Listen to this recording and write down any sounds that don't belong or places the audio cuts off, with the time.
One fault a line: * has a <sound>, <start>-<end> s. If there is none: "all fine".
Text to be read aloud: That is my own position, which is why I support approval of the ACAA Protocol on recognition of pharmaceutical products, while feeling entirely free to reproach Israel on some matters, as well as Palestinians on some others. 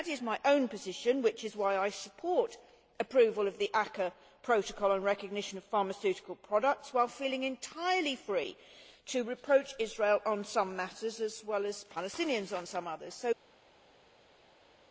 all fine